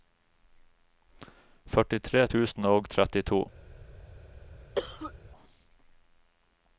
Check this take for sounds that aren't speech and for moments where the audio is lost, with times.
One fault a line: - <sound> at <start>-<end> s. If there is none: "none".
- cough at 4.8-5.1 s